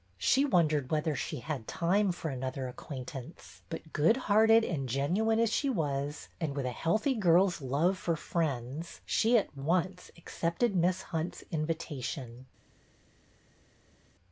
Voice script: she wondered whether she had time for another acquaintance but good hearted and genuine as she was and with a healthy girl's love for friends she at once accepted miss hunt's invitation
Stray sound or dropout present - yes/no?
no